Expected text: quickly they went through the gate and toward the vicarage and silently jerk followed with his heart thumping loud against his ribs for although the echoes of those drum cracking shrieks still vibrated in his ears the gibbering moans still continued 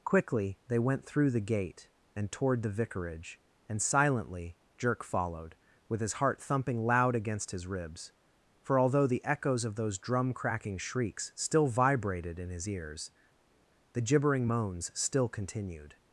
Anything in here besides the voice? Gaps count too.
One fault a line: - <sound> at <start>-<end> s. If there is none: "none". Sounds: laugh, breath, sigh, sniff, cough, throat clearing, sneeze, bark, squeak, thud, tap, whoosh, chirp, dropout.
none